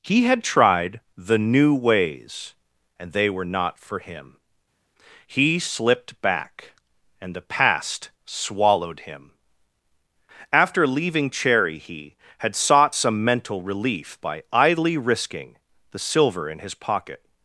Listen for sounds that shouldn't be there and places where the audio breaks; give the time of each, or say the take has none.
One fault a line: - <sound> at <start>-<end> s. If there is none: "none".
none